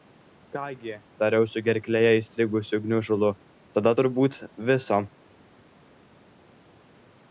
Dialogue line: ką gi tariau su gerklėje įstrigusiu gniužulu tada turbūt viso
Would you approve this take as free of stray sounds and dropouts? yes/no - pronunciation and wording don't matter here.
yes